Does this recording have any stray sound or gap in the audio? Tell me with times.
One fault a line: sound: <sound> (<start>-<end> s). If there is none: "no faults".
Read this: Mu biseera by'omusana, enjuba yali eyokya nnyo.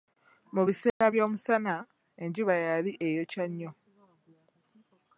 sound: dropout (0.9-1.0 s)